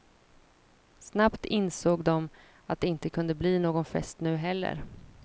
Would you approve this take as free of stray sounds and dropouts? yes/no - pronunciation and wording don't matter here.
yes